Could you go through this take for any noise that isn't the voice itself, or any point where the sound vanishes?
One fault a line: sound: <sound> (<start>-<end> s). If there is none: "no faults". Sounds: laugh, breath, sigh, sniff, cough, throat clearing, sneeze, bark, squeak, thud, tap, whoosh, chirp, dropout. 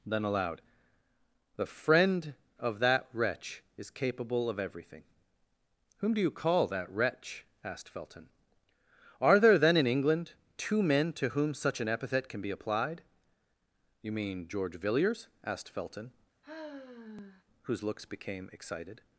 sound: sigh (16.4-17.4 s)